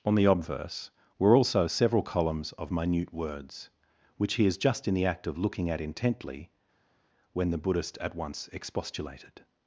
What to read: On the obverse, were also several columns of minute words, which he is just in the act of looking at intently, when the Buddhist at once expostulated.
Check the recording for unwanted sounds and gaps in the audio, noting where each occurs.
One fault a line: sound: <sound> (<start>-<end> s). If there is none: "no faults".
no faults